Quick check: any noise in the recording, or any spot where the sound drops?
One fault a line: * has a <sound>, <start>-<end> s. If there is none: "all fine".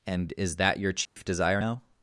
* has a dropout, 1.1-1.2 s